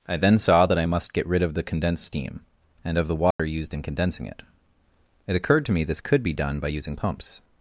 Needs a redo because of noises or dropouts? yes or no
yes